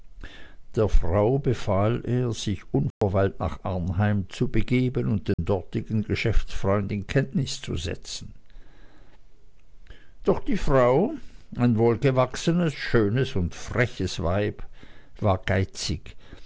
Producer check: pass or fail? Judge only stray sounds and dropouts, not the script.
fail